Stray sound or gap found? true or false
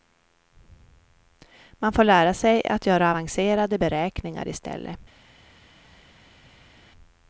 false